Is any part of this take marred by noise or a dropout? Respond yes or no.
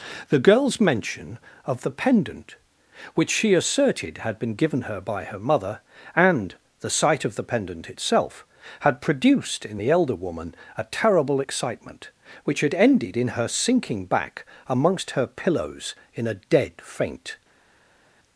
no